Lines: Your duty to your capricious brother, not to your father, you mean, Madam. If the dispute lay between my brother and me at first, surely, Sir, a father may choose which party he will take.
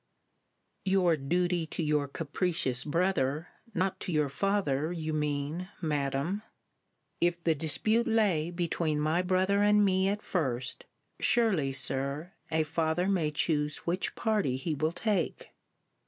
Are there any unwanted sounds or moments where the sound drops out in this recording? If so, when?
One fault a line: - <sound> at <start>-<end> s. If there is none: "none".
none